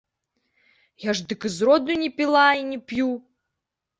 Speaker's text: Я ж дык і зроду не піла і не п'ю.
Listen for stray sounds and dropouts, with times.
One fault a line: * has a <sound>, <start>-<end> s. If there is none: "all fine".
all fine